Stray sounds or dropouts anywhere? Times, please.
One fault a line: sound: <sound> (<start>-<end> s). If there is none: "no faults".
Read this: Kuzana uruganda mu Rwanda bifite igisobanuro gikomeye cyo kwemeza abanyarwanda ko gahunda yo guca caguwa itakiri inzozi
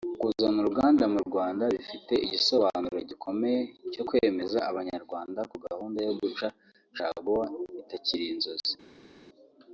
no faults